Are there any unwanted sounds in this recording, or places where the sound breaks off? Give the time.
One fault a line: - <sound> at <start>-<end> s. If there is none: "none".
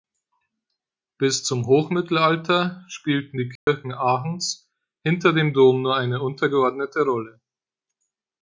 - dropout at 3.6-3.7 s